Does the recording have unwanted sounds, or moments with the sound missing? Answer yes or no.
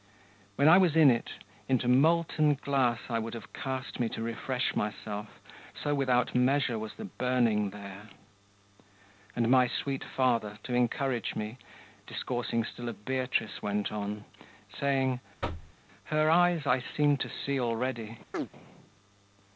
yes